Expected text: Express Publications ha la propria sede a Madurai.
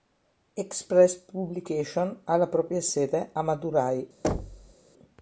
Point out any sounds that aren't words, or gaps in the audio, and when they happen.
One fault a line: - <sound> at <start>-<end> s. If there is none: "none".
- thud at 4.2-4.7 s